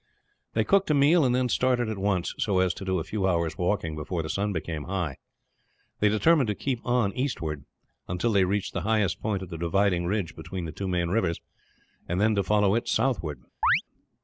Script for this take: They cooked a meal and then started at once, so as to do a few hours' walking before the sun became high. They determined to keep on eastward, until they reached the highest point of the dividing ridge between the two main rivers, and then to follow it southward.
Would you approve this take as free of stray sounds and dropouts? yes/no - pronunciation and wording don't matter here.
no